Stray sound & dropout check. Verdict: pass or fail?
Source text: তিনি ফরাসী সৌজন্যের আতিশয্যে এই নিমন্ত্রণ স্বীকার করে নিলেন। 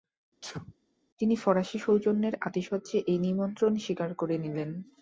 fail